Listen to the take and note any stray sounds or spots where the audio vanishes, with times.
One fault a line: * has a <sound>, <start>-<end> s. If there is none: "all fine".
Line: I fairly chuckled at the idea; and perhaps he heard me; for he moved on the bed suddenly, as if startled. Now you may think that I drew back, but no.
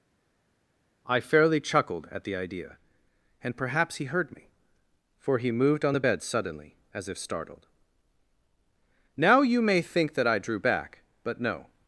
all fine